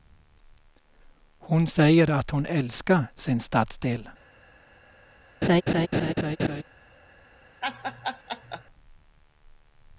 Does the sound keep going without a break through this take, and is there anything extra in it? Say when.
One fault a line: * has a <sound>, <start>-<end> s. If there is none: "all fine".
* has a laugh, 5.4-6.6 s
* has a laugh, 7.6-8.6 s